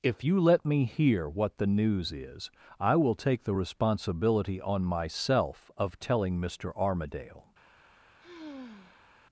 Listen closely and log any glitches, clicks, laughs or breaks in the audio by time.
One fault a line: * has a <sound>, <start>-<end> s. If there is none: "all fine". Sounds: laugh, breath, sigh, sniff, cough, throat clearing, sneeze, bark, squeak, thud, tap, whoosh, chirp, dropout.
* has a sigh, 8.2-9.1 s